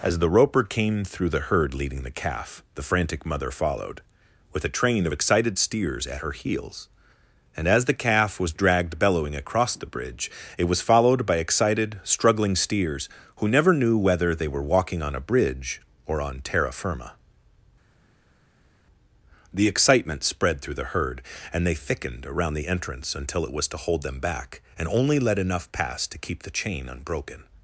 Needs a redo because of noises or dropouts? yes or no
no